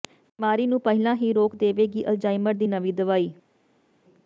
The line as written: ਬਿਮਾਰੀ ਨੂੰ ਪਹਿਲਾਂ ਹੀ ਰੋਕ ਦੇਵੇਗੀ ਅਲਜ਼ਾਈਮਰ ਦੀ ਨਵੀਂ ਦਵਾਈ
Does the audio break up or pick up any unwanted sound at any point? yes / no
no